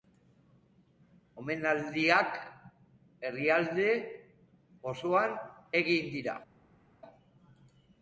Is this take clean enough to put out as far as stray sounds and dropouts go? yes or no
yes